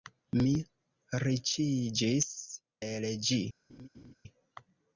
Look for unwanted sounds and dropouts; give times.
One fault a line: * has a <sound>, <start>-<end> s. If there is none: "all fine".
* has a laugh, 3.7-4.1 s